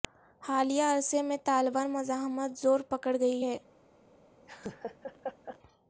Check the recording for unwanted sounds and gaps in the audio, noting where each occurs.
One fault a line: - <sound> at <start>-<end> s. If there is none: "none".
- laugh at 4.4-5.6 s